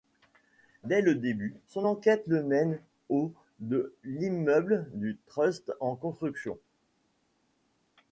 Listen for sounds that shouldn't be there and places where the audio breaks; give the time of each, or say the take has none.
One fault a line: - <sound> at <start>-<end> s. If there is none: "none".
none